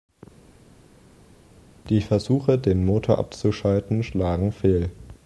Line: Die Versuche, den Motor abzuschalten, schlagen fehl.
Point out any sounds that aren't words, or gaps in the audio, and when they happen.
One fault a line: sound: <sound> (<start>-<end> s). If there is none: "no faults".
no faults